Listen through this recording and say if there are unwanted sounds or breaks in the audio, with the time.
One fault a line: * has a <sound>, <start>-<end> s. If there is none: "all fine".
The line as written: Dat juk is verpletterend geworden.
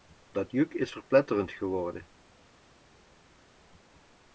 all fine